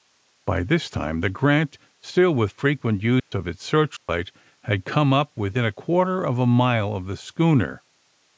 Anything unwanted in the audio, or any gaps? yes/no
yes